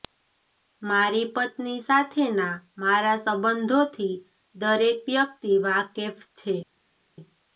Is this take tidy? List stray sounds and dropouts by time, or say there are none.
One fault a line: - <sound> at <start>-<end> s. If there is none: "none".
none